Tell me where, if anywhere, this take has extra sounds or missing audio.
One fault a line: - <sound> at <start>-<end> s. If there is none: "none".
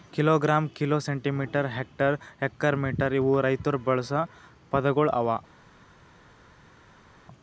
none